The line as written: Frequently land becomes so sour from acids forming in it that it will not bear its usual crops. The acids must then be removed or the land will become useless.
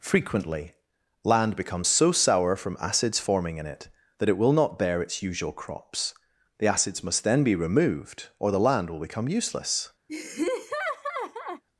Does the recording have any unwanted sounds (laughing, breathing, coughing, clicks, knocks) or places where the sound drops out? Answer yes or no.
yes